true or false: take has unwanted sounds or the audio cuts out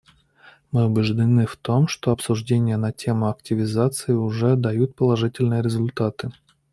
false